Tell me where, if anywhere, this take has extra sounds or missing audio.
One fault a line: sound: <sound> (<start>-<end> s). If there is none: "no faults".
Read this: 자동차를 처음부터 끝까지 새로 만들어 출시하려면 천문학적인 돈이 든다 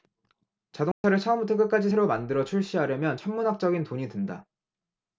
sound: dropout (0.9-1.0 s)